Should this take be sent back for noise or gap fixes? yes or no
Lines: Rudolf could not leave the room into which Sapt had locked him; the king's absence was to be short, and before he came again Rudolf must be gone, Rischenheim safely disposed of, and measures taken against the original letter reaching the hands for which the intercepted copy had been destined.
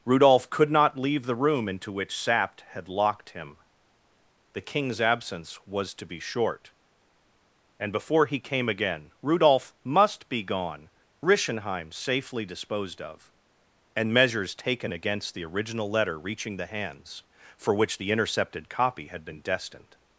no